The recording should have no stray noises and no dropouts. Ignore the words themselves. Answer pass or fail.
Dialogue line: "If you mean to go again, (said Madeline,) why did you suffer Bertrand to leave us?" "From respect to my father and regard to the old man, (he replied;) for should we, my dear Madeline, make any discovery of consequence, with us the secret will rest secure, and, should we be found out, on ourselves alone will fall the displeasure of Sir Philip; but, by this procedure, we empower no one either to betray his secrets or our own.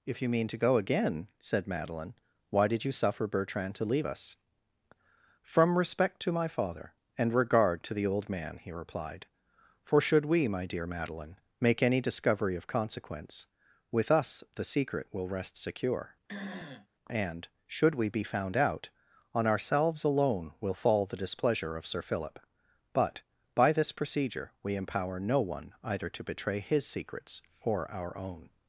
fail